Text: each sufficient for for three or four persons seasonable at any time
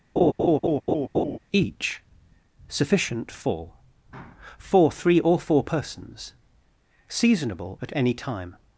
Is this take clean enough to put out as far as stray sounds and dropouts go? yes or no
no